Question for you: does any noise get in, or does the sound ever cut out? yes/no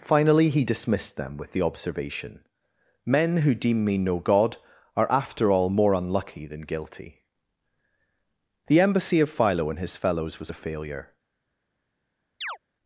yes